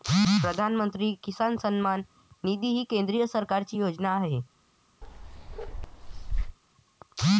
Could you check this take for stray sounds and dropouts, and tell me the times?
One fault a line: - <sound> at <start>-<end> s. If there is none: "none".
- bark at 5.0-6.6 s